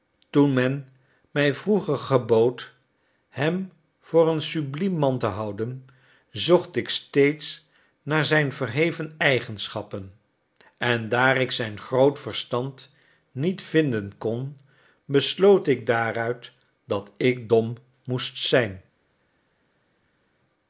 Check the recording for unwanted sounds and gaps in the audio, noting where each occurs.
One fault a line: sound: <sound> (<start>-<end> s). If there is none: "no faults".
no faults